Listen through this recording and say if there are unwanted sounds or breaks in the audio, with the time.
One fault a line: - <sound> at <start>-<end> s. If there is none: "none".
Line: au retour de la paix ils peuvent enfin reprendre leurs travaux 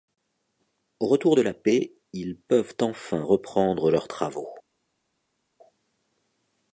none